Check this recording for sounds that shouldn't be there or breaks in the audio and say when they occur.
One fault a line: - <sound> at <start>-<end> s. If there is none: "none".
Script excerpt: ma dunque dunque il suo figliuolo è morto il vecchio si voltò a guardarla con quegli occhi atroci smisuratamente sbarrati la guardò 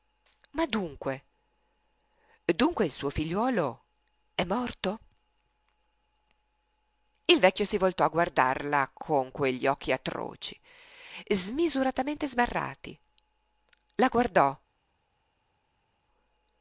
none